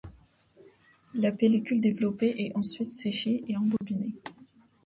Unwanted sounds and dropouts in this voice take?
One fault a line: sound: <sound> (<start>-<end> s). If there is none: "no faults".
sound: dropout (3.8-3.8 s)